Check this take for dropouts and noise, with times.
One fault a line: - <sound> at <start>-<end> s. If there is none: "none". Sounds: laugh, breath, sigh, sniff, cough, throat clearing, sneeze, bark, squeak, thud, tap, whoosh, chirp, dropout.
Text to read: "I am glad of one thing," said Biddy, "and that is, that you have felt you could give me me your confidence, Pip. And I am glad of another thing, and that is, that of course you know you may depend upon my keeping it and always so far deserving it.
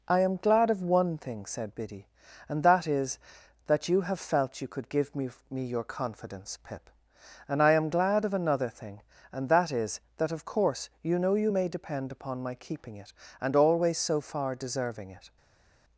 none